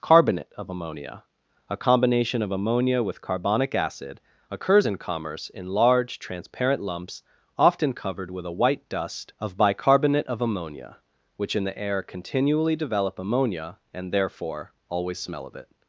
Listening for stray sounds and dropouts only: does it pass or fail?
pass